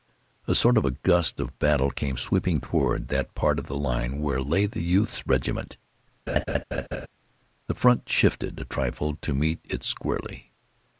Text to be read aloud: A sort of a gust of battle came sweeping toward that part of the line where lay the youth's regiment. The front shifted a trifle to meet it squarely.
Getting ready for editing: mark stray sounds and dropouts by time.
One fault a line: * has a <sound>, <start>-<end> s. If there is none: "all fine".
* has a laugh, 6.3-7.1 s